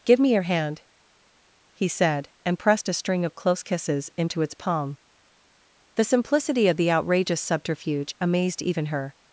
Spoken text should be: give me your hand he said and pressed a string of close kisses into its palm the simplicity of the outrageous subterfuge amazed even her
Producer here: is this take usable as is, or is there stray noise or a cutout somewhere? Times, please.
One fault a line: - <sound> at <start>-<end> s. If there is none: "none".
none